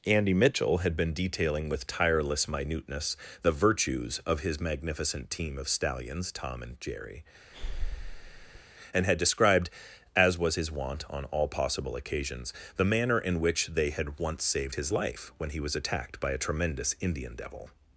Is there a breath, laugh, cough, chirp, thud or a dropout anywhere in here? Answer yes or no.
yes